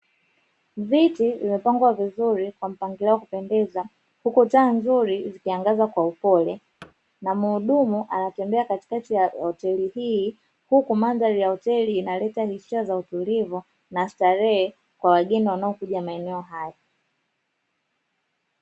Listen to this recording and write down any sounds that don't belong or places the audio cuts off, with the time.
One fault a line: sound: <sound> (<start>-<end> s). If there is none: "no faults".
sound: thud (6.8-6.9 s)